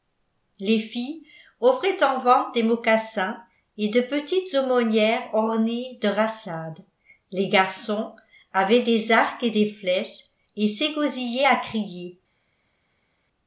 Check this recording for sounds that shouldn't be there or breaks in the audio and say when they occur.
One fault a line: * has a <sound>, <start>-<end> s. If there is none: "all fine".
all fine